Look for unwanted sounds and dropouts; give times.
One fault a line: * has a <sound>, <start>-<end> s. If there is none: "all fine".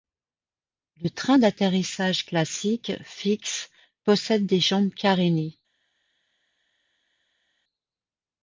all fine